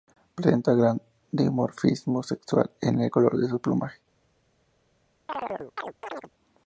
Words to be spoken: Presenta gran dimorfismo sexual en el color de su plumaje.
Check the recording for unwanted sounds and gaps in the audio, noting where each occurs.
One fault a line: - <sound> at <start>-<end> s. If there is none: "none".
- chirp at 5.3-6.3 s